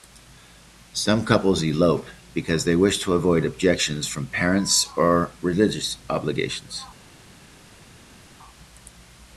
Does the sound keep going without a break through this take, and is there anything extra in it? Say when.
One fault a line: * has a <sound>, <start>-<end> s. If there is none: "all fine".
all fine